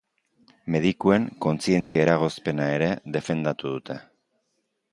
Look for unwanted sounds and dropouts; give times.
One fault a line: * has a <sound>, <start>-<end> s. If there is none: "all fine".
* has a dropout, 1.8-2.0 s